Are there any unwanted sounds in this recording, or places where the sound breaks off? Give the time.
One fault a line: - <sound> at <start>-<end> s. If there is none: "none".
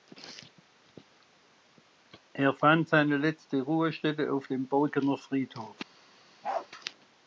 - bark at 6.4-6.7 s